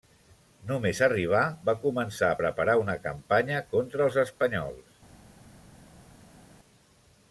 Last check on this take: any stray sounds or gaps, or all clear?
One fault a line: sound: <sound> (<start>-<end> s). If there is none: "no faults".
no faults